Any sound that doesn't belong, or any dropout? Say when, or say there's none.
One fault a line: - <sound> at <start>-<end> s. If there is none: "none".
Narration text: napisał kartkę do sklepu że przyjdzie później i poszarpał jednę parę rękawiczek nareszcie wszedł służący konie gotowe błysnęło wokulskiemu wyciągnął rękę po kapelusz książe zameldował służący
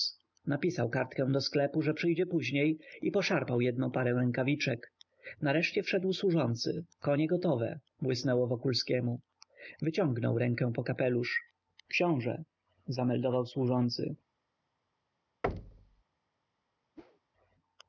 - thud at 15.4-16.0 s
- whoosh at 17.0-17.2 s